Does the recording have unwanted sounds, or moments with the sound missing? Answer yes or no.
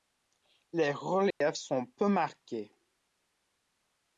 yes